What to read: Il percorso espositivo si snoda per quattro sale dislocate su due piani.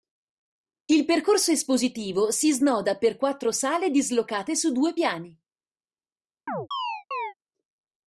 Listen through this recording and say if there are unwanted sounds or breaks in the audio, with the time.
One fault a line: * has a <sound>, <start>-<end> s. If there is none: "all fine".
* has a chirp, 6.5-7.3 s